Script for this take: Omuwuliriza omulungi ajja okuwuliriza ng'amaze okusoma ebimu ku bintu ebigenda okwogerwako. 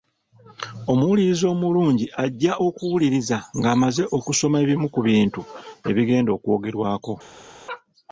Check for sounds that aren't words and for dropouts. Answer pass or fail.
pass